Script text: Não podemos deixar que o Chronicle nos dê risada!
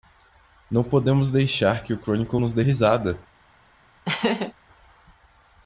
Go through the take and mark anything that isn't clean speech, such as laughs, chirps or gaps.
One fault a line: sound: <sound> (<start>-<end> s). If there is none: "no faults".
sound: laugh (4.1-4.5 s)